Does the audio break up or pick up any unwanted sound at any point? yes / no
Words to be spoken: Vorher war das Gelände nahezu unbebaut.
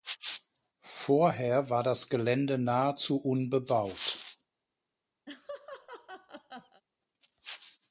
yes